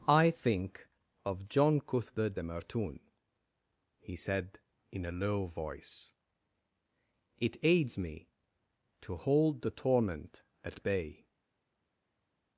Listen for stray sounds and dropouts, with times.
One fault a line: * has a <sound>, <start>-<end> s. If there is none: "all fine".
all fine